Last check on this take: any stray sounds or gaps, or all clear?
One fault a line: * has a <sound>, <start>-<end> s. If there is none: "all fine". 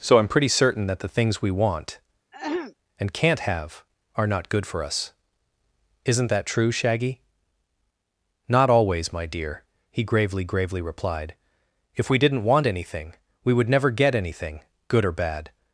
* has a throat clearing, 2.3-2.7 s